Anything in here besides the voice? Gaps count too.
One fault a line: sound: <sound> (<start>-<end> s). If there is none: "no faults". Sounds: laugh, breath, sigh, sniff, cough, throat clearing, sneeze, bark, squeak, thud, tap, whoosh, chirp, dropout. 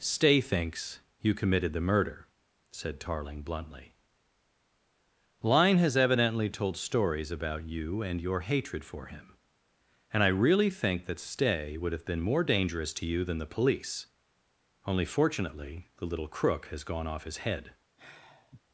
sound: sigh (18.0-18.6 s)